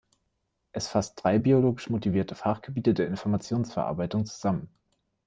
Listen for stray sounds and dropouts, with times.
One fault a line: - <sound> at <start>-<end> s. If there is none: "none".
none